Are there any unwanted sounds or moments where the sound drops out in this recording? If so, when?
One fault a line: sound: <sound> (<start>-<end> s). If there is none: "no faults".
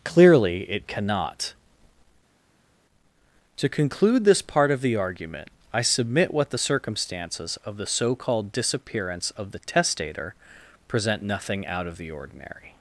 no faults